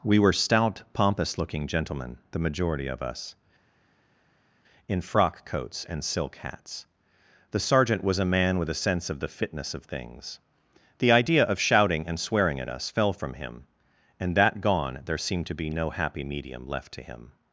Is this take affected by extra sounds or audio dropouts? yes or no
no